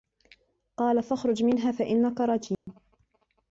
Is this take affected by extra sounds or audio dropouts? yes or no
yes